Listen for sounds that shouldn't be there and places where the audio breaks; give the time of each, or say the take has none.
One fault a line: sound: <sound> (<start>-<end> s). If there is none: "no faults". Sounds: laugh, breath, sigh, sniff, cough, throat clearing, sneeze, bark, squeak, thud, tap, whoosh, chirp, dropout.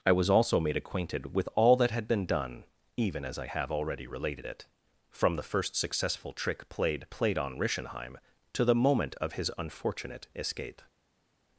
no faults